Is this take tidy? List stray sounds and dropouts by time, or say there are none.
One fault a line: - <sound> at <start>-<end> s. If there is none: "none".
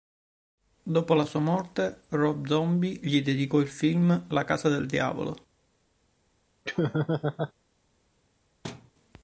- laugh at 6.6-7.5 s
- thud at 8.6-8.9 s